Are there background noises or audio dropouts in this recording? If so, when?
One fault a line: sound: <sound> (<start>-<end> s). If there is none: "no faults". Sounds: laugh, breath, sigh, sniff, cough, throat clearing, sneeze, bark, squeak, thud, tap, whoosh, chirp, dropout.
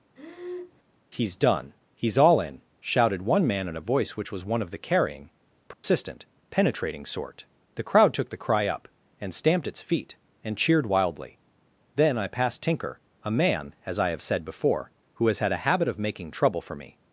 sound: breath (0.2-0.8 s)
sound: dropout (5.7-5.8 s)